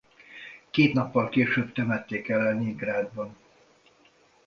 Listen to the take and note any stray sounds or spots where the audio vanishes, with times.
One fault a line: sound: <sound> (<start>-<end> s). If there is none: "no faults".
no faults